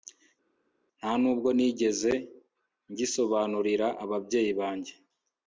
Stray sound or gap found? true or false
false